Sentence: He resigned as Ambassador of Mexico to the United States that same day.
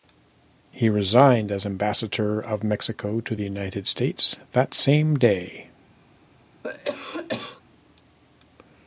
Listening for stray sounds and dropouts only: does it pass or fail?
fail